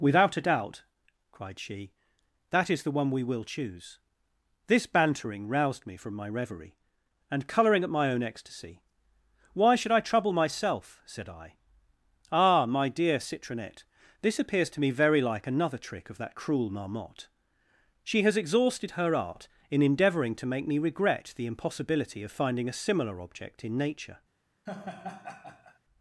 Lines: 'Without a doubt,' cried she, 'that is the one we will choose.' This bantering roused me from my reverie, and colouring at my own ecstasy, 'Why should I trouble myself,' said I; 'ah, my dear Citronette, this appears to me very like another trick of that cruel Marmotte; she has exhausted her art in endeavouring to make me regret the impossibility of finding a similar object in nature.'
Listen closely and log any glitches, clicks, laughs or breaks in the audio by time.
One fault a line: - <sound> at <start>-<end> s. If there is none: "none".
- laugh at 24.7-25.8 s